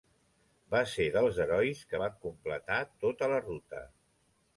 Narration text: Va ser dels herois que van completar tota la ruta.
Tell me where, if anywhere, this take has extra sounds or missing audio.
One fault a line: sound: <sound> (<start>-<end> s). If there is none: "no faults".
no faults